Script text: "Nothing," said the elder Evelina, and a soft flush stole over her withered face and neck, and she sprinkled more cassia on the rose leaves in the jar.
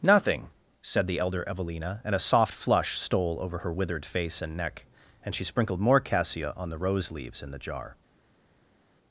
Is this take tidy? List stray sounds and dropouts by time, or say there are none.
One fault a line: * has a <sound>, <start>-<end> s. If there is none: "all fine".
all fine